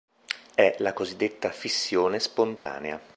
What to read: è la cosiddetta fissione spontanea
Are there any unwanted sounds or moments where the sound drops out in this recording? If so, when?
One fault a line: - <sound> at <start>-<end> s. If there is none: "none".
- dropout at 2.6-2.7 s